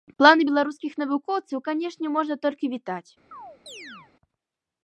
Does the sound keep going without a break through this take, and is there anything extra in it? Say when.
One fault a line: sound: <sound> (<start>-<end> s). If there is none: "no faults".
sound: chirp (3.3-4.1 s)